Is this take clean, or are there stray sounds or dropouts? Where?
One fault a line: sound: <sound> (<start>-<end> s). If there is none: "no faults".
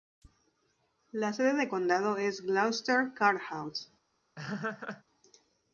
sound: laugh (4.4-5.0 s)